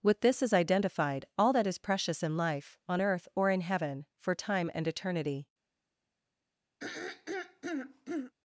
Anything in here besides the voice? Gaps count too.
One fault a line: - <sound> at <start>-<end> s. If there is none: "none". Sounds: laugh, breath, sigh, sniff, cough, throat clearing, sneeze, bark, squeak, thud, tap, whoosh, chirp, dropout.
- throat clearing at 6.8-8.3 s